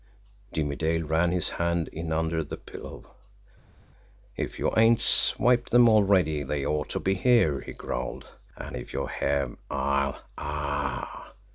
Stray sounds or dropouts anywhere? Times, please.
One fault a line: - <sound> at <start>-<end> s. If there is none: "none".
none